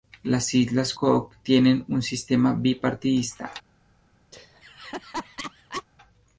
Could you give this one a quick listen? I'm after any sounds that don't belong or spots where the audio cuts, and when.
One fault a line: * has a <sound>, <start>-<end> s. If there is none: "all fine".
* has a laugh, 4.3-5.8 s